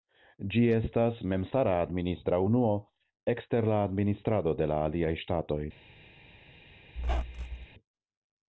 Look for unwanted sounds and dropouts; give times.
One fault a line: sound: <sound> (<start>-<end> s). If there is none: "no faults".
sound: squeak (7.0-7.7 s)